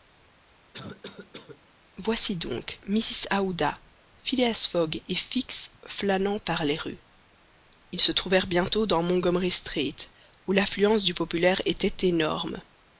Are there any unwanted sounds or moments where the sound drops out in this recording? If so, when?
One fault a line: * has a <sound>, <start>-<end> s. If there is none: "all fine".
* has a cough, 0.7-1.6 s